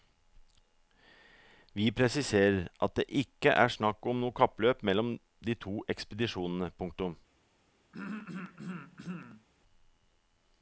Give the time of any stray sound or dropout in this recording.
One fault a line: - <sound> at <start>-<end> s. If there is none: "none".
- throat clearing at 7.9-9.5 s